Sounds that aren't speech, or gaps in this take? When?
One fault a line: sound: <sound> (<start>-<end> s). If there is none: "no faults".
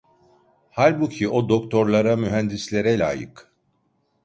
no faults